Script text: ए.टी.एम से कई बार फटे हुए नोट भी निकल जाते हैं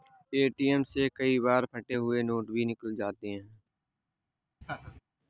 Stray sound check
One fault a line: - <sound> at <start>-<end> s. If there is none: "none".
- laugh at 4.6-5.0 s